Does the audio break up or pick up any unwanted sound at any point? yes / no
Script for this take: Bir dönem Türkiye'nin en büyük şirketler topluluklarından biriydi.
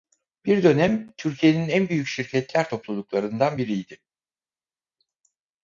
no